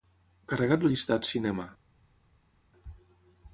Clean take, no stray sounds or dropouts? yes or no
yes